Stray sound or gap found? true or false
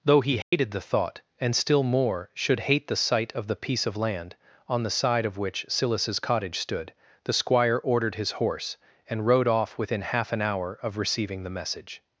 true